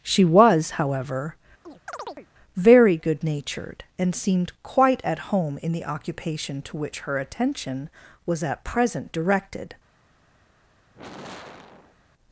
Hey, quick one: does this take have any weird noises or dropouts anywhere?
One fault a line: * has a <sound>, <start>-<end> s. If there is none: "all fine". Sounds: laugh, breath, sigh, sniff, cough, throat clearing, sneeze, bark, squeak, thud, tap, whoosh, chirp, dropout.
* has a chirp, 1.6-2.3 s
* has a sigh, 10.9-12.0 s